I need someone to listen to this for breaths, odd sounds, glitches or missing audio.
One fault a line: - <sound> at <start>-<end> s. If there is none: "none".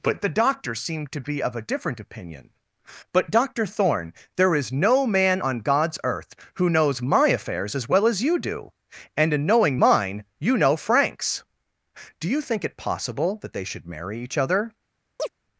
- chirp at 15.2-15.3 s